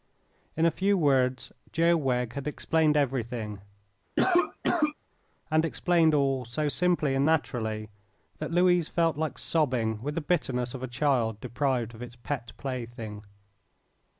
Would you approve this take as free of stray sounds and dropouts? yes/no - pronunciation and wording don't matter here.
no